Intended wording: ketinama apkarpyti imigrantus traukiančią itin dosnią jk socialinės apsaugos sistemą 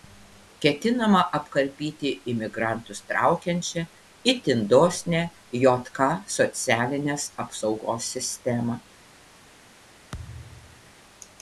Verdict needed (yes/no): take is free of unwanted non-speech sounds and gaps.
no